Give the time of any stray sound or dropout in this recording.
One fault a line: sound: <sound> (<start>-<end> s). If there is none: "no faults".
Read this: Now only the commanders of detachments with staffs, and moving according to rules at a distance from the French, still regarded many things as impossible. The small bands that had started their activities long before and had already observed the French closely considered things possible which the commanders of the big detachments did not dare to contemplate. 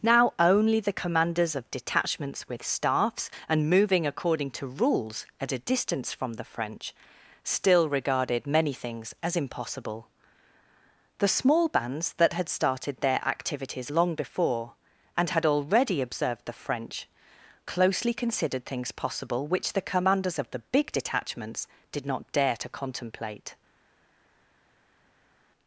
no faults